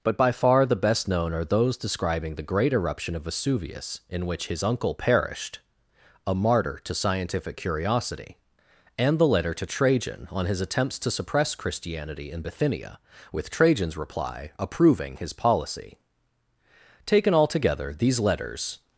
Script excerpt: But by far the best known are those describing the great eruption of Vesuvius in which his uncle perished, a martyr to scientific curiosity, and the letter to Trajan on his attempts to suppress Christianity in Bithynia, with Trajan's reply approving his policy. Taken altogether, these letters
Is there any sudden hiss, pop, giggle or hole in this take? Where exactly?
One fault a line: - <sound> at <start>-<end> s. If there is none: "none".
none